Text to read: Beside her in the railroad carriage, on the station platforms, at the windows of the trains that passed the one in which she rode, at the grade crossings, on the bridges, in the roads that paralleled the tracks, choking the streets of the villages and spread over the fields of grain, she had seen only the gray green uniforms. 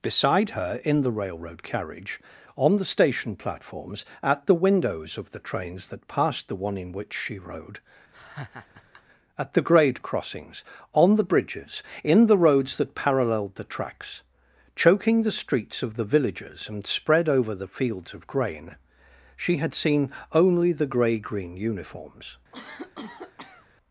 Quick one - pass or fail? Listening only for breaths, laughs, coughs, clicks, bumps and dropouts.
fail